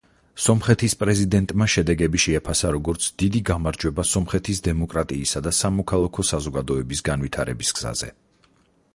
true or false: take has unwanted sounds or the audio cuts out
false